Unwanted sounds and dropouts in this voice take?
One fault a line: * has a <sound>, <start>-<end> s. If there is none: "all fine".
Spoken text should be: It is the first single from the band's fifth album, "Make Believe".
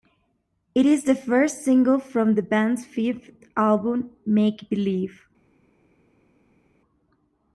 all fine